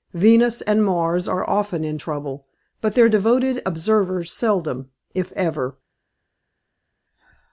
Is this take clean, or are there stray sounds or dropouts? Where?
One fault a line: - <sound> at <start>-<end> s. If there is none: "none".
none